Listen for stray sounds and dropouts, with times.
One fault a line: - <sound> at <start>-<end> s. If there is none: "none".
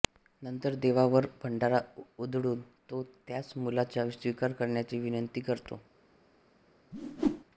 - whoosh at 6.9-7.4 s